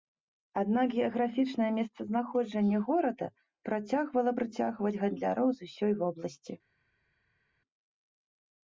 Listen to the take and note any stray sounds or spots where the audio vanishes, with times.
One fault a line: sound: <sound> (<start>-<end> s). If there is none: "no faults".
no faults